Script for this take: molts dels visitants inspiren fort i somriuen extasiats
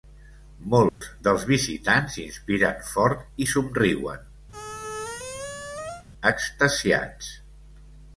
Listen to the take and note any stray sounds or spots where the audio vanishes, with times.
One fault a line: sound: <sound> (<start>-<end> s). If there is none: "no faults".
sound: dropout (0.9-1.0 s)
sound: squeak (4.5-6.1 s)